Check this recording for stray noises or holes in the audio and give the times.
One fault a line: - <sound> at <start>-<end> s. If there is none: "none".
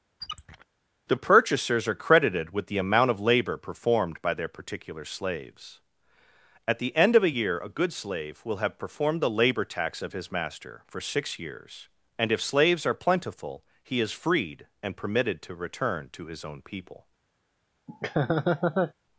- squeak at 0.2-0.7 s
- laugh at 17.9-18.9 s